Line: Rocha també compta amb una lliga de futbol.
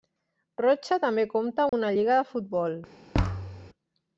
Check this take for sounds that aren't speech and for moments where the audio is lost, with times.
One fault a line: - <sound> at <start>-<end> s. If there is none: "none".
- dropout at 1.7-1.7 s
- thud at 3.1-3.7 s